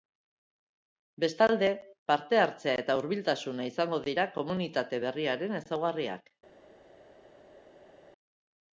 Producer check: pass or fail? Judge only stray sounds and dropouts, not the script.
pass